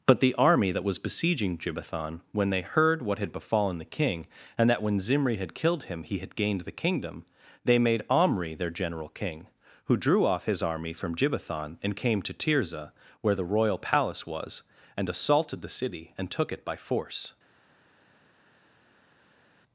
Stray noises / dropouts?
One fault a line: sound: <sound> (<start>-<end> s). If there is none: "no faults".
no faults